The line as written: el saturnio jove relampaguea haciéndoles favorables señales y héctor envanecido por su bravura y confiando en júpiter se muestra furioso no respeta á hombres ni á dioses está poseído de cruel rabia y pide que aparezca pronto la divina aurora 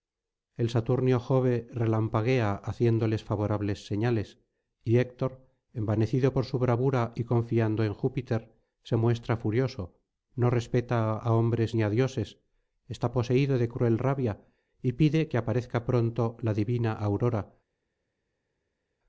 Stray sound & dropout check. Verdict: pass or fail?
pass